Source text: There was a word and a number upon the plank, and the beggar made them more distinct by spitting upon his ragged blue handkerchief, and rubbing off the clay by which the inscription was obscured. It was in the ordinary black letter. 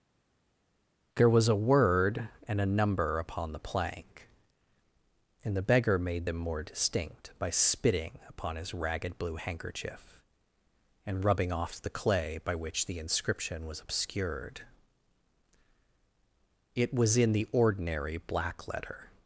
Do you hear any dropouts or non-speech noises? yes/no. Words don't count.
no